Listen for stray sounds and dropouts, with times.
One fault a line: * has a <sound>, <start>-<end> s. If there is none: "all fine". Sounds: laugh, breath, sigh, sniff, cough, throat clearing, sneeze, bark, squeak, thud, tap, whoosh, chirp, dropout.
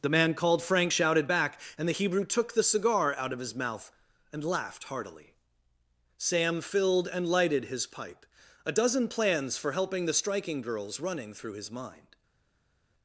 all fine